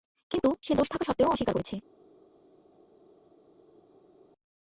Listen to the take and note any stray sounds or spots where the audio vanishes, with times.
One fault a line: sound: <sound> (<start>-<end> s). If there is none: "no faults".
no faults